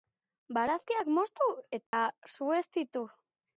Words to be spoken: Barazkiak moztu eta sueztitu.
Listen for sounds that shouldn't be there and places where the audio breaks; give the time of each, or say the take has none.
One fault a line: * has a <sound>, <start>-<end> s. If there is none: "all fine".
* has a dropout, 1.9-1.9 s